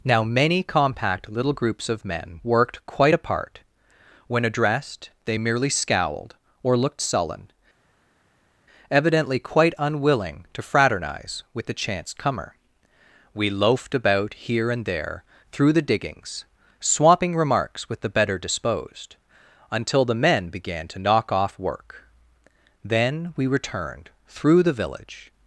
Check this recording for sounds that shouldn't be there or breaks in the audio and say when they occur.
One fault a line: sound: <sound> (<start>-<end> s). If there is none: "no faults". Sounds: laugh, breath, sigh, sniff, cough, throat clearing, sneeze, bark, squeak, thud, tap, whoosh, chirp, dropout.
no faults